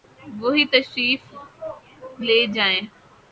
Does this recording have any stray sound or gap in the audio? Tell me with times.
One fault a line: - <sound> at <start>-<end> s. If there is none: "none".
none